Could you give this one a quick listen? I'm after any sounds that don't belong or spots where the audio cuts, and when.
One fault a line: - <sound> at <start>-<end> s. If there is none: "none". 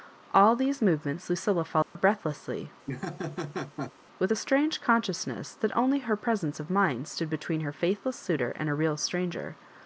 - dropout at 1.8-2.0 s
- laugh at 2.9-3.9 s